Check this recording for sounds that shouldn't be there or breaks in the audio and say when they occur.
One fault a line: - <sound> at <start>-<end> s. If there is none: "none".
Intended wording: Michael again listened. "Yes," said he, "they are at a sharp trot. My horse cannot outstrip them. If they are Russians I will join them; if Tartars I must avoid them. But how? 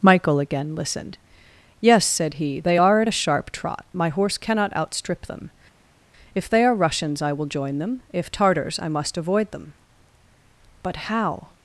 none